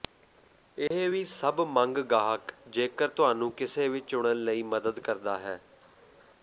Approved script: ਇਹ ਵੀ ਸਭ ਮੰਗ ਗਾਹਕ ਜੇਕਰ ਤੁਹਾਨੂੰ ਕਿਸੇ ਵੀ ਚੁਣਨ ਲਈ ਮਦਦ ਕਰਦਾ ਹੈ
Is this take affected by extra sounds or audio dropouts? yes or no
yes